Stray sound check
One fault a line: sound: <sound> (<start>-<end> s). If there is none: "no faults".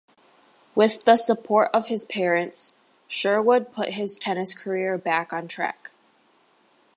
no faults